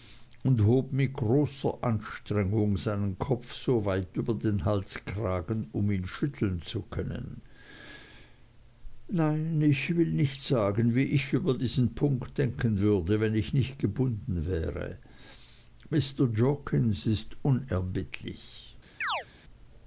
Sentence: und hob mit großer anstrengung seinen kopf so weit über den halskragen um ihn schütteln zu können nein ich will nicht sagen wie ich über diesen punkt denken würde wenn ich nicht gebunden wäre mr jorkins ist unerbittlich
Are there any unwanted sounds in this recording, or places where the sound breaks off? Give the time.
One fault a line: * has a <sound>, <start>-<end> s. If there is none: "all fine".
* has a chirp, 19.0-19.3 s